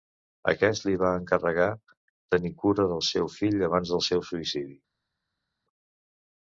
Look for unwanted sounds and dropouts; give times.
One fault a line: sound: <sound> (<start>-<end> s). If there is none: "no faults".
no faults